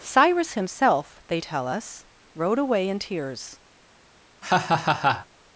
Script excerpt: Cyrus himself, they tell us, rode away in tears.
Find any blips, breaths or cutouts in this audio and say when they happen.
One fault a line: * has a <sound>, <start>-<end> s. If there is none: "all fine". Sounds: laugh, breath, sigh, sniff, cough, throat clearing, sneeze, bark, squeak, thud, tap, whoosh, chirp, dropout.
* has a laugh, 4.4-5.3 s